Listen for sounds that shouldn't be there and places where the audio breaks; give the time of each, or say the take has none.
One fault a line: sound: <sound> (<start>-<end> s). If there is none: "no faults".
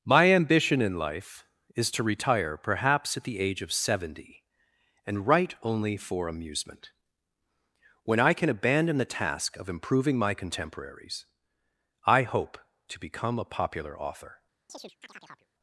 sound: chirp (14.7-15.5 s)